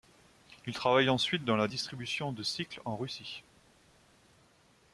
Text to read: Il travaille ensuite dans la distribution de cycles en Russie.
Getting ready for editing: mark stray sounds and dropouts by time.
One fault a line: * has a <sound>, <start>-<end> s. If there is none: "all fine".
all fine